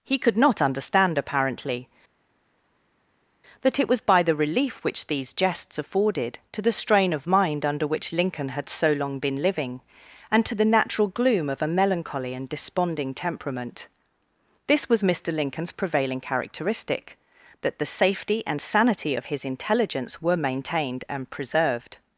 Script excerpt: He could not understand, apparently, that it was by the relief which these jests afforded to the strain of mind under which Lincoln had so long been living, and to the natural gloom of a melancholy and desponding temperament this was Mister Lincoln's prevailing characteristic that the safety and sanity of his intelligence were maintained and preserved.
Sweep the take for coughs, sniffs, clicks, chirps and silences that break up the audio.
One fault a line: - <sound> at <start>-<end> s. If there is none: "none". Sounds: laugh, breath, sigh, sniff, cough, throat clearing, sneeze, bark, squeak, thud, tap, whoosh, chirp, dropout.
none